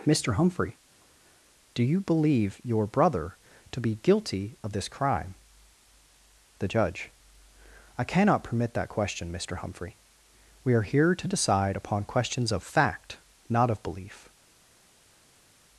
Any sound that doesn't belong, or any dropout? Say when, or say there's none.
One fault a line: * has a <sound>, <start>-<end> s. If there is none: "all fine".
all fine